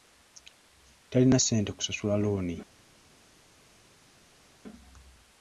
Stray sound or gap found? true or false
false